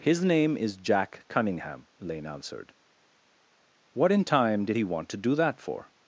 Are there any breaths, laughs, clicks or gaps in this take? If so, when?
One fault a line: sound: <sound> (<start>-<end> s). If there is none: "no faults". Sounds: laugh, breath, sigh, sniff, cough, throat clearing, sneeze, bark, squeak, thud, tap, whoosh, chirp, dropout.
no faults